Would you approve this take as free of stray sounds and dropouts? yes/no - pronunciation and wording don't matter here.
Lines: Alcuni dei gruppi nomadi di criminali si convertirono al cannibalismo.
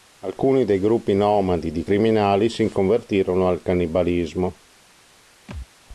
no